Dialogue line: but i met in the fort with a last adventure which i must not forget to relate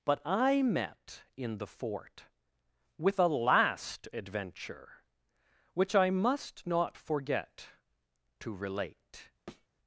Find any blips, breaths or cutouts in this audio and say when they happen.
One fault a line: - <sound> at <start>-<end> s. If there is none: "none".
- thud at 9.5-9.7 s